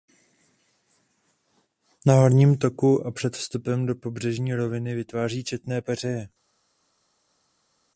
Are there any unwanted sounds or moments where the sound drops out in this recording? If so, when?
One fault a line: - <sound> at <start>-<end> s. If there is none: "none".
none